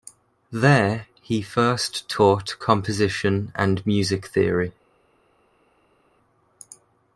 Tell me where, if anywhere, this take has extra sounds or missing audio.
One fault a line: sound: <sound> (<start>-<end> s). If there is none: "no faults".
no faults